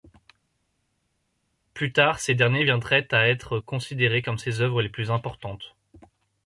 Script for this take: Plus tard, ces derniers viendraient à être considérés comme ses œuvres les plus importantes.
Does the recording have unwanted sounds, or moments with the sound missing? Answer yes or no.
no